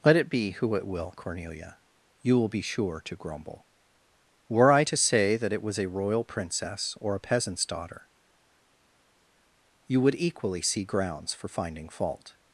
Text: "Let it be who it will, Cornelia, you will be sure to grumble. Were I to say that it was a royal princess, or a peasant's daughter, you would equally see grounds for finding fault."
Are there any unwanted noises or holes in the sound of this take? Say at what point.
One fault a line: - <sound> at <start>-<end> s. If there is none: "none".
none